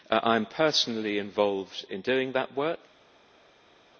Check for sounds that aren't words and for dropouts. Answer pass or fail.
pass